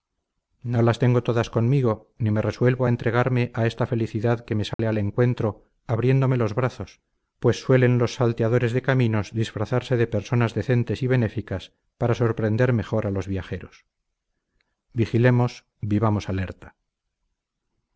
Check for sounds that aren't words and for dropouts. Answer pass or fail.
fail